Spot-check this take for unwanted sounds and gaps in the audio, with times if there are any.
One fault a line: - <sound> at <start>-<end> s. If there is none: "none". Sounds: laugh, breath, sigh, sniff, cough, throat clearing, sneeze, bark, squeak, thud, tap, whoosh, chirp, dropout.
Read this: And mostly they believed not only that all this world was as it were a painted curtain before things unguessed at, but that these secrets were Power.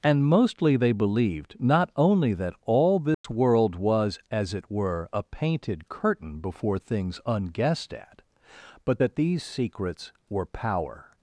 - dropout at 3.1-3.2 s